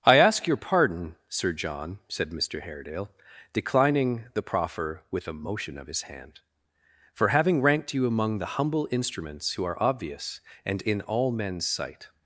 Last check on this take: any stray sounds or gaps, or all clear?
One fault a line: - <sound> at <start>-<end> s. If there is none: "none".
none